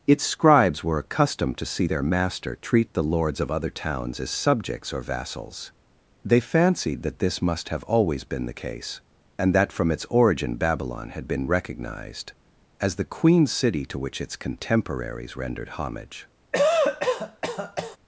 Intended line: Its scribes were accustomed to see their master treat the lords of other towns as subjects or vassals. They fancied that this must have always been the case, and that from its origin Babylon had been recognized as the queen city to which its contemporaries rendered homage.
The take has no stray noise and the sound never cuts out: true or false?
false